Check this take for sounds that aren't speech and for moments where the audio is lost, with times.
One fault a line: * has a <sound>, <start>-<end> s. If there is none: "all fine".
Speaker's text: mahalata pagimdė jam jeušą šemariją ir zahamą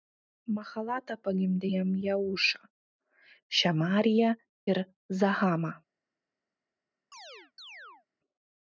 * has a chirp, 7.1-8.1 s